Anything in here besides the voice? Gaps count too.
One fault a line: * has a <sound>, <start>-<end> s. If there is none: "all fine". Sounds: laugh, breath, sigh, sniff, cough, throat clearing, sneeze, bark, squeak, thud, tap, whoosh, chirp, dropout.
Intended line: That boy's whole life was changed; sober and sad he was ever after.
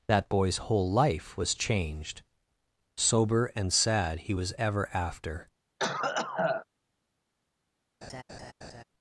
* has a cough, 5.8-6.7 s
* has a laugh, 8.0-8.8 s